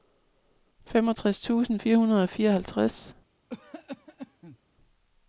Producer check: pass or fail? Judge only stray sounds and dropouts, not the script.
fail